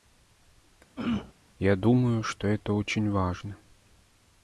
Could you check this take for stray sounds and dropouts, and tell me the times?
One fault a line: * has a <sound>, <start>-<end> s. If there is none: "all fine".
* has a throat clearing, 1.0-1.3 s